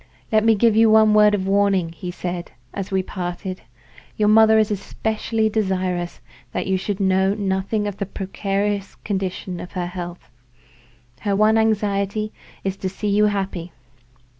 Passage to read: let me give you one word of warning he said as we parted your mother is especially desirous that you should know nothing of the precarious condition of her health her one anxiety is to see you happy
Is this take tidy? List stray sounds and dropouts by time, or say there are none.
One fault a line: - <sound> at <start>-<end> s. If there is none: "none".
none